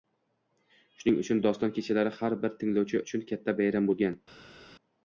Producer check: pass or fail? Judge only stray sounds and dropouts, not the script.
pass